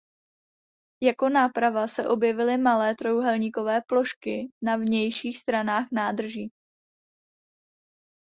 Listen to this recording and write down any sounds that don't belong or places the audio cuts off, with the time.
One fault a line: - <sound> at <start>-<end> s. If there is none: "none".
none